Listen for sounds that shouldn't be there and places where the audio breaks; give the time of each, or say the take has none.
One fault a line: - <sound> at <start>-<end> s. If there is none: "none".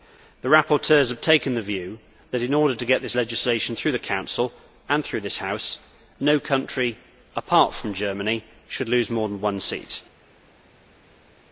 none